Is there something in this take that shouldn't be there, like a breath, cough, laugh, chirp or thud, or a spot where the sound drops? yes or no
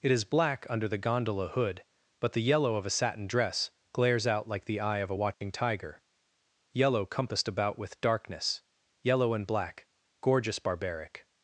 yes